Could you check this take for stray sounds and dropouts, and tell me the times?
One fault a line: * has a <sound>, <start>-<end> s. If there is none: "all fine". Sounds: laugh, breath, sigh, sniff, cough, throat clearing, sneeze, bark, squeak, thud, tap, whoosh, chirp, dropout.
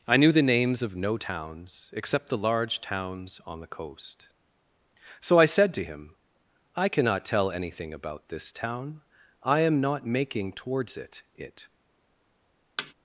* has a thud, 12.8-12.9 s